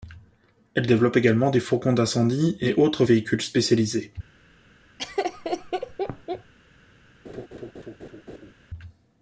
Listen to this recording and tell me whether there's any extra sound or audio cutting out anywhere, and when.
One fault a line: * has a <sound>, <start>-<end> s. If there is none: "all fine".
* has a laugh, 5.0-6.5 s
* has a laugh, 7.2-8.5 s